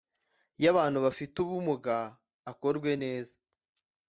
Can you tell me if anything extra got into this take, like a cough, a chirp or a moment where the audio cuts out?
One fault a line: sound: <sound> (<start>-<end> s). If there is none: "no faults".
no faults